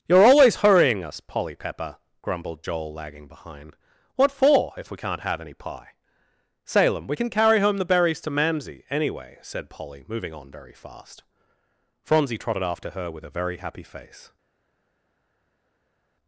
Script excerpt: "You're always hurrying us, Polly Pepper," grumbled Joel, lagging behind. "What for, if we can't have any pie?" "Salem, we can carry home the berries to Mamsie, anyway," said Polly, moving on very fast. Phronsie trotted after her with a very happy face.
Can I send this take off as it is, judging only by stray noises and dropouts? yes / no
yes